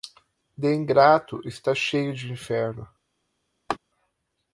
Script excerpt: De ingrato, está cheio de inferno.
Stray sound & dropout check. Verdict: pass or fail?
fail